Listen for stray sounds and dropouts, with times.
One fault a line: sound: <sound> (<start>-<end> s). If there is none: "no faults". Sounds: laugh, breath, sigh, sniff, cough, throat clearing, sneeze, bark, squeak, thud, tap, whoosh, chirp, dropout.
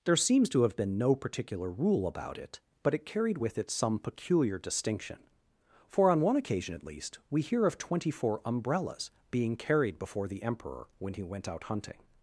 no faults